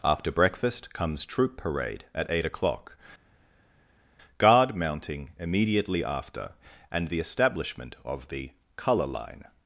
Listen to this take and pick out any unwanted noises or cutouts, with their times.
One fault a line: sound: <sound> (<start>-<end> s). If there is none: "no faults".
no faults